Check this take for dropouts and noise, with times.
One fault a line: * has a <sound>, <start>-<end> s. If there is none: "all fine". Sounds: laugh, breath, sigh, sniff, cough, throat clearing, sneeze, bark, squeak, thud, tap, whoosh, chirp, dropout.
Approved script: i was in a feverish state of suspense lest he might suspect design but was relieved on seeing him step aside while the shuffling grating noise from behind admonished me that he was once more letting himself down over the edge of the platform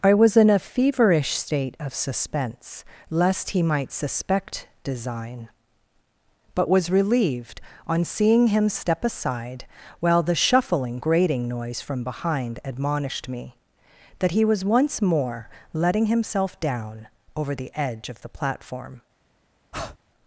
* has a breath, 19.7-20.0 s